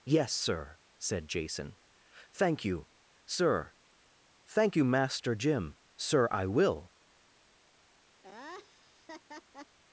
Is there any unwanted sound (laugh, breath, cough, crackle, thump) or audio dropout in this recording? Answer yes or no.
yes